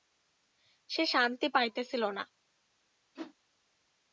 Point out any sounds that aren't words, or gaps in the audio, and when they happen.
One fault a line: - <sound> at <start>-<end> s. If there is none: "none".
- whoosh at 3.2-3.4 s